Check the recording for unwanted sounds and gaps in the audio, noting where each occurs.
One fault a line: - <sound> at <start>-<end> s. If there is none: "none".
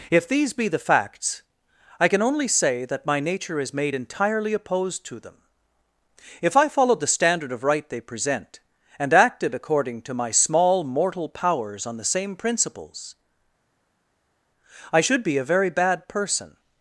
none